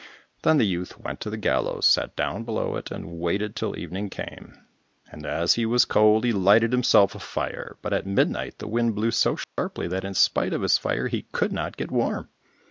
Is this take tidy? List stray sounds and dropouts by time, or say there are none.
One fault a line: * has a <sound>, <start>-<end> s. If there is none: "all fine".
* has a dropout, 9.4-9.6 s